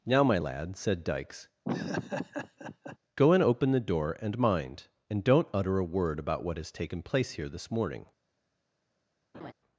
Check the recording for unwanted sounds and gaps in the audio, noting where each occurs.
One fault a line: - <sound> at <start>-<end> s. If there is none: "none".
- laugh at 1.6-3.0 s
- laugh at 9.3-9.5 s